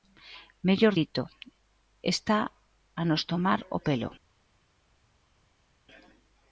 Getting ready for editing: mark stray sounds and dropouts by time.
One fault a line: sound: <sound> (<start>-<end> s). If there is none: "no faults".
no faults